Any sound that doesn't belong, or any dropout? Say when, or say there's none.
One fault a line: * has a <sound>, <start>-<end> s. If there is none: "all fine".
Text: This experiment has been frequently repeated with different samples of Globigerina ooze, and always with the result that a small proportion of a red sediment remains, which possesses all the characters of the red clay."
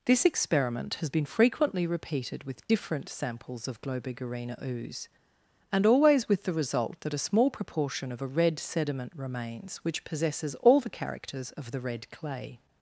all fine